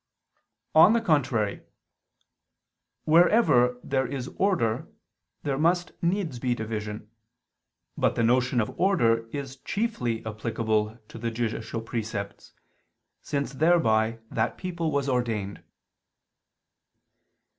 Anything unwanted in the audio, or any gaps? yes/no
no